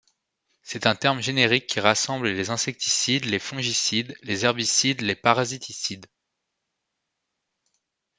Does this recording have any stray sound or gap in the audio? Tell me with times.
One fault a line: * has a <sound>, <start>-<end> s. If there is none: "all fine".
all fine